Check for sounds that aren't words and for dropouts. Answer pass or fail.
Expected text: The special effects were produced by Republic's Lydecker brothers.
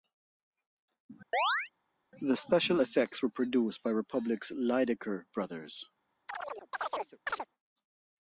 fail